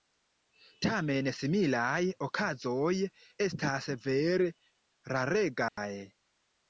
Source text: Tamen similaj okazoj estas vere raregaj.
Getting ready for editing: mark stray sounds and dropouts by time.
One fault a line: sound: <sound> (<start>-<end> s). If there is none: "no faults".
sound: dropout (5.7-5.8 s)